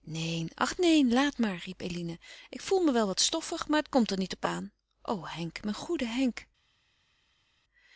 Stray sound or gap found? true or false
false